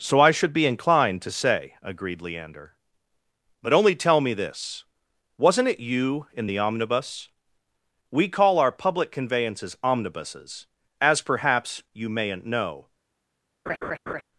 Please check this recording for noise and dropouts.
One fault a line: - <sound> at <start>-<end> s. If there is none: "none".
- laugh at 13.7-14.2 s